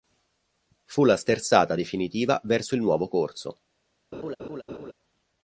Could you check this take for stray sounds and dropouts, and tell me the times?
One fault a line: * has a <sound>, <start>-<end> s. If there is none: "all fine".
* has a laugh, 4.1-4.9 s